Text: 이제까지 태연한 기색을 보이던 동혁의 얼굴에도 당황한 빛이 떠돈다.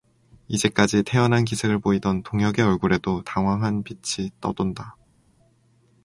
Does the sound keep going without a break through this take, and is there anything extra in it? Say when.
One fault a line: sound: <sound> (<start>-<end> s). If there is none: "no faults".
no faults